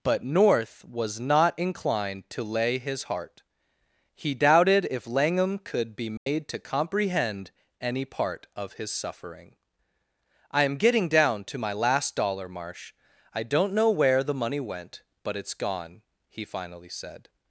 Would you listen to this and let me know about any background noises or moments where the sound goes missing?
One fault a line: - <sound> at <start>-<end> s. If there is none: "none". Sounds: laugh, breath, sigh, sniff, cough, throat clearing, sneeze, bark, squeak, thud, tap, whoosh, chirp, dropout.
- dropout at 6.2-6.3 s